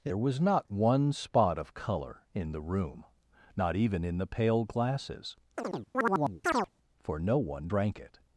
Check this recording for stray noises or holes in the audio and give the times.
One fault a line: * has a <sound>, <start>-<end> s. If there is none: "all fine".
* has a chirp, 5.6-6.7 s